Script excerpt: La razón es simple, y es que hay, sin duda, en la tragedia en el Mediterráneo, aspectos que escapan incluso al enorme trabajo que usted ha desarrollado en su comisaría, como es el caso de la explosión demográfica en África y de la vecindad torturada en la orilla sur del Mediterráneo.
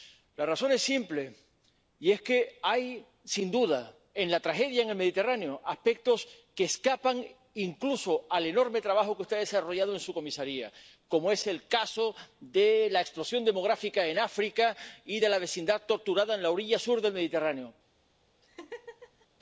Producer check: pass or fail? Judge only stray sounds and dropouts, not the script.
fail